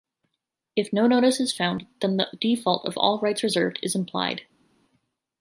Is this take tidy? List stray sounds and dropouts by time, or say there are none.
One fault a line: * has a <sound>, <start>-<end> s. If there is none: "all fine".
all fine